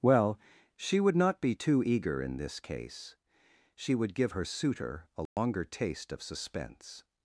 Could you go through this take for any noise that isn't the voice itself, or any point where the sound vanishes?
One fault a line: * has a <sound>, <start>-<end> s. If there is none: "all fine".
* has a dropout, 5.3-5.4 s